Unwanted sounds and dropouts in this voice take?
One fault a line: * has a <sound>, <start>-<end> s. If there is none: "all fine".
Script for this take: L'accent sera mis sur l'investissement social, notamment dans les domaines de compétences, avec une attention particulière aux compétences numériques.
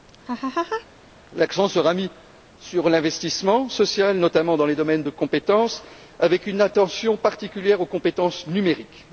* has a laugh, 0.3-0.9 s